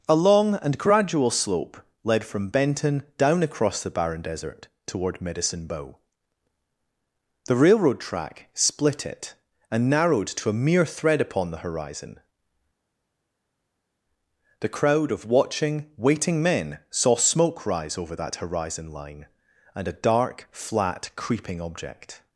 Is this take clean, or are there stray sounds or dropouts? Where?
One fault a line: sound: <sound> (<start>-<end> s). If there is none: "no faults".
no faults